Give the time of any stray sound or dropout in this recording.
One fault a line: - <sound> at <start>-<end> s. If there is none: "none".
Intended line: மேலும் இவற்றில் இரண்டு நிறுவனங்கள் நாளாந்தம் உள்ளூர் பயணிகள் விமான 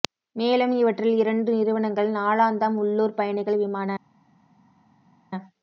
none